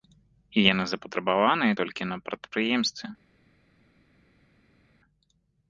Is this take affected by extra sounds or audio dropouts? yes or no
no